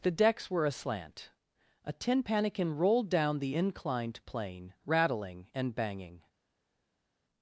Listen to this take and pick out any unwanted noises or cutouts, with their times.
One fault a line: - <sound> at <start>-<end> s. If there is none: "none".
none